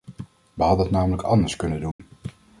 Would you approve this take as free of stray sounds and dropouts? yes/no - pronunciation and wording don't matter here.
no